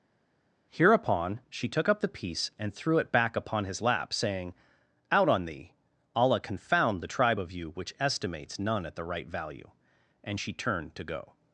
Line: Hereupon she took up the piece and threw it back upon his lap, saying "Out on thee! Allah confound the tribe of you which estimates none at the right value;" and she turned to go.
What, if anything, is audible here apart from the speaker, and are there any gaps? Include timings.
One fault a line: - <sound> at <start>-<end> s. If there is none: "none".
none